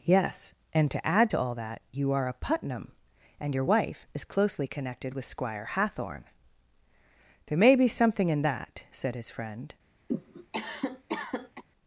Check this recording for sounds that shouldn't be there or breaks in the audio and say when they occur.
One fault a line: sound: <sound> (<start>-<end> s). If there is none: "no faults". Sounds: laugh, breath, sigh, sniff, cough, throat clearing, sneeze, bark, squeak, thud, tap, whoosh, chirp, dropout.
sound: cough (10.1-11.6 s)